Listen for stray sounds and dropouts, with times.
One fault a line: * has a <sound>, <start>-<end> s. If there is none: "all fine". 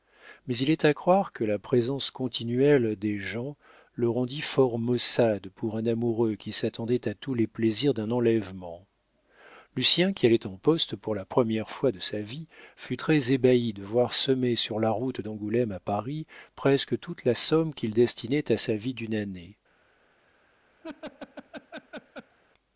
* has a laugh, 20.8-22.4 s